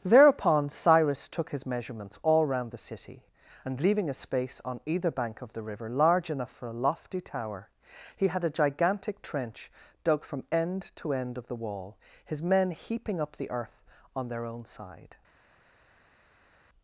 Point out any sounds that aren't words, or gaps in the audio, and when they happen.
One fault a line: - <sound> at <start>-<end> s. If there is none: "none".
none